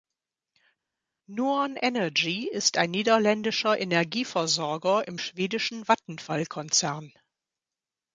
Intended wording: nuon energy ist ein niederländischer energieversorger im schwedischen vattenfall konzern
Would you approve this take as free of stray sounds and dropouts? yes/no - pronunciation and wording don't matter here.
yes